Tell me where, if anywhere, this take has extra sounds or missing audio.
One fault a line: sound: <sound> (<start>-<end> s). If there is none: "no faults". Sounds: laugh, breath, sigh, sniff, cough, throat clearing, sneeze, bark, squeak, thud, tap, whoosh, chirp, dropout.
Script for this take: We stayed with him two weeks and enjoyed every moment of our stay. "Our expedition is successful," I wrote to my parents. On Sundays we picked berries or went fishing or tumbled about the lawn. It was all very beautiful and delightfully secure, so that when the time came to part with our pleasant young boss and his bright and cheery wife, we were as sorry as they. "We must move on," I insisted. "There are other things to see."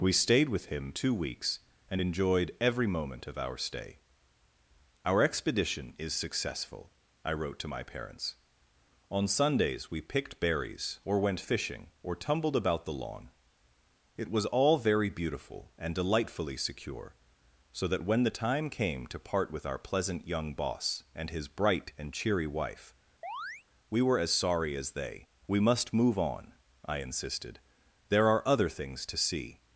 sound: chirp (23.2-23.6 s)